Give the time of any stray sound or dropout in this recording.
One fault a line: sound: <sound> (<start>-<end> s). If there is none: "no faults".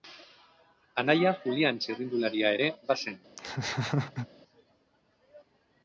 sound: laugh (3.4-4.3 s)